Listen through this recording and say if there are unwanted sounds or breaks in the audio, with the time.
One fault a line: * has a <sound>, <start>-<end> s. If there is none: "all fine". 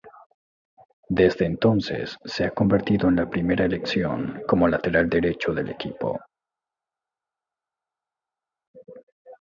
all fine